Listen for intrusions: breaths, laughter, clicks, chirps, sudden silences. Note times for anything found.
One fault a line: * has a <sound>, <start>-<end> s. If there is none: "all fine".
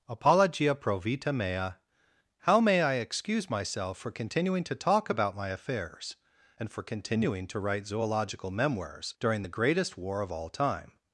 all fine